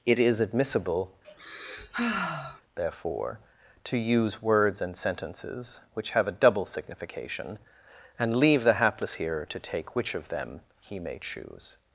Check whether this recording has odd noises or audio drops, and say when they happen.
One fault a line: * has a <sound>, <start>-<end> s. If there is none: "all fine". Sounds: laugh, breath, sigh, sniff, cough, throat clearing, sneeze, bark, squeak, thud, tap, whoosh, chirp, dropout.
* has a sigh, 1.2-2.6 s